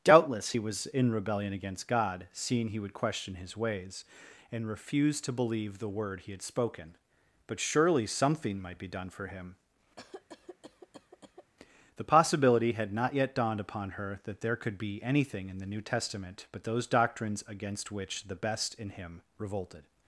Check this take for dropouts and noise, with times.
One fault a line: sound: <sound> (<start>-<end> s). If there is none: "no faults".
sound: cough (10.0-11.5 s)